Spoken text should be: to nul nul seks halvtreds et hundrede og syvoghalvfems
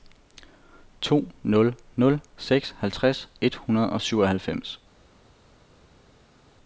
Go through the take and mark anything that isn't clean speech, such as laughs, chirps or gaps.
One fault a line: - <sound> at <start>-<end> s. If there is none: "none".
none